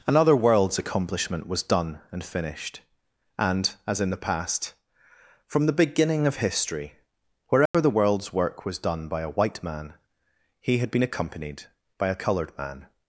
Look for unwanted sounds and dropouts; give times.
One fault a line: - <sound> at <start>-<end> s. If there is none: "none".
- dropout at 7.7-7.7 s